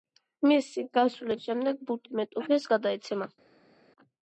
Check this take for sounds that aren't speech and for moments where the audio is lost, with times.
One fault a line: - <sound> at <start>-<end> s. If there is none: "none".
none